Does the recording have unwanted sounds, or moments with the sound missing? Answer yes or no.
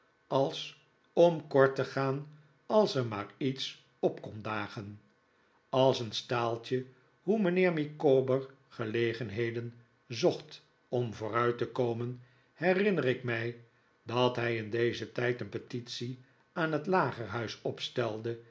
no